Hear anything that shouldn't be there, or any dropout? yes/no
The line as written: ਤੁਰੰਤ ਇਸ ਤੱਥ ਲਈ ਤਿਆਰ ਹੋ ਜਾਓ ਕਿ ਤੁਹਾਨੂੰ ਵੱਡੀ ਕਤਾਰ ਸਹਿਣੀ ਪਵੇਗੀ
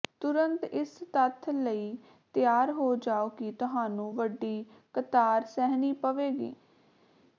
no